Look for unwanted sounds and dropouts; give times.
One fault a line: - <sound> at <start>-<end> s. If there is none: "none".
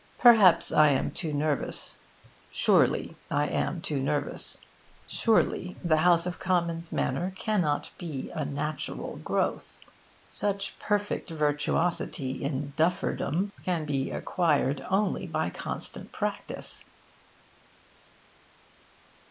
none